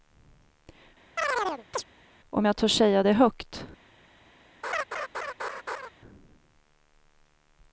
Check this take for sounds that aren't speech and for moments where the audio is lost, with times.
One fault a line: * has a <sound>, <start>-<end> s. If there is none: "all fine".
* has a chirp, 1.2-1.8 s
* has a laugh, 4.6-5.9 s